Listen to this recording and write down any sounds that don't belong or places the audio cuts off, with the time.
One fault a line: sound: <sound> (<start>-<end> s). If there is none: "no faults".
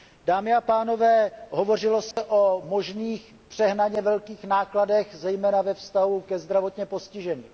sound: dropout (2.1-2.2 s)